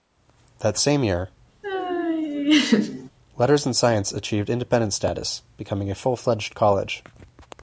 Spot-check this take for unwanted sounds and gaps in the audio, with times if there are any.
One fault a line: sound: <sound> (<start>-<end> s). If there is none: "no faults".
sound: laugh (1.6-3.1 s)